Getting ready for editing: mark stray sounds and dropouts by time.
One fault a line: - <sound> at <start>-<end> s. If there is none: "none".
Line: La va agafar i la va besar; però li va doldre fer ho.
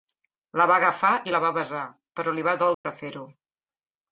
- dropout at 2.7-2.8 s